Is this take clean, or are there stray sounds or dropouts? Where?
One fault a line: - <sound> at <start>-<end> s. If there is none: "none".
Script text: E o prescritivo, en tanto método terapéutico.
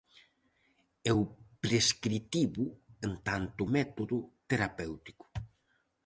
none